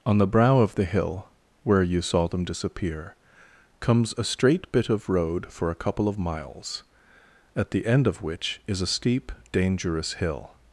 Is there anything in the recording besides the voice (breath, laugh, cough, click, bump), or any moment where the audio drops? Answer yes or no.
no